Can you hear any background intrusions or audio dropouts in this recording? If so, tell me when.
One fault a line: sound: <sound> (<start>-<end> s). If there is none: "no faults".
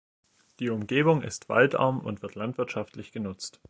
no faults